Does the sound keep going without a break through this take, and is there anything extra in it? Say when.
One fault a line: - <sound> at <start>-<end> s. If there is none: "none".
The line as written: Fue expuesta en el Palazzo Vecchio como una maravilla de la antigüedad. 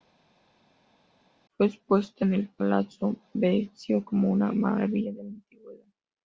none